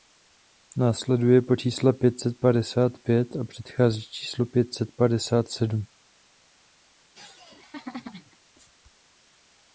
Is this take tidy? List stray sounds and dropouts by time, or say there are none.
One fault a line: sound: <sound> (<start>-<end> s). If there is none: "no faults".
sound: laugh (7.1-8.4 s)